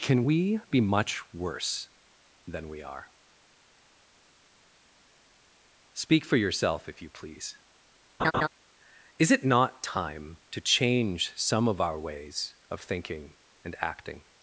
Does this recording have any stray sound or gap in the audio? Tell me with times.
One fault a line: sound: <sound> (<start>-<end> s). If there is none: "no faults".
sound: laugh (8.2-8.5 s)